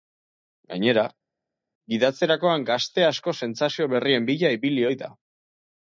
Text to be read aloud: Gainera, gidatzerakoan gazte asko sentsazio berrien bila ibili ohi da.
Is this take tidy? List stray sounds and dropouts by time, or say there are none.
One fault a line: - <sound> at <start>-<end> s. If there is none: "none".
none